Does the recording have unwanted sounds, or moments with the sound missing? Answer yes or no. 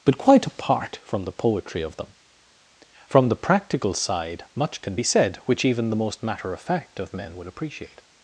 no